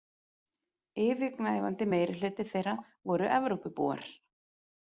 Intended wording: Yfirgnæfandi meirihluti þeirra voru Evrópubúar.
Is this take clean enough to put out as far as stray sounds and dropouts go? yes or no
yes